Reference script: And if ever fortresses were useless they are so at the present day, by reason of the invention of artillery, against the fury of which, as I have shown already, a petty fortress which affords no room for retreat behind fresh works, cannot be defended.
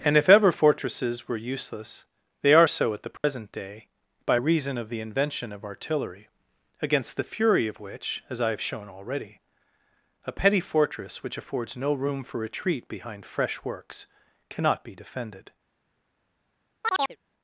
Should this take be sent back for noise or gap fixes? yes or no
yes